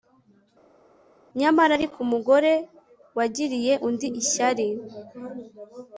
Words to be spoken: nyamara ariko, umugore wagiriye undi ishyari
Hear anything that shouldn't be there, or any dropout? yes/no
no